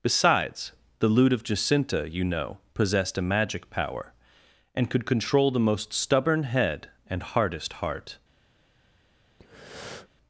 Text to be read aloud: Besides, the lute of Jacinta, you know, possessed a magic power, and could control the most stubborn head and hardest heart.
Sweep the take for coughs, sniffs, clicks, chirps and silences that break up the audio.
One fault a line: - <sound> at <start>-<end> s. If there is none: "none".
- breath at 9.4-10.1 s